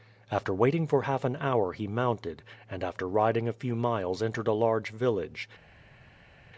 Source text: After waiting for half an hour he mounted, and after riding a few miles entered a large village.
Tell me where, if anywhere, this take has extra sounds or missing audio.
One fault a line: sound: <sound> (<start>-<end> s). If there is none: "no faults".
no faults